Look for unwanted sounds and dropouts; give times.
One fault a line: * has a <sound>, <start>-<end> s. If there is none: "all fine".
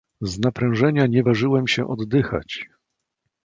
all fine